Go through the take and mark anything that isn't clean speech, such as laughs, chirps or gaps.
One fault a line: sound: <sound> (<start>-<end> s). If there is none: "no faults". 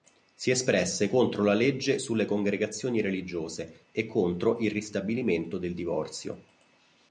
no faults